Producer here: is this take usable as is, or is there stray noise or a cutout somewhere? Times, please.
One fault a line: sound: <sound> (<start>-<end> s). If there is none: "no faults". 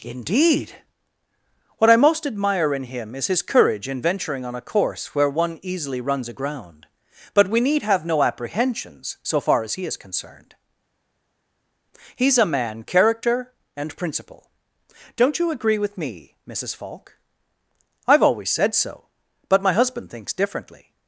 no faults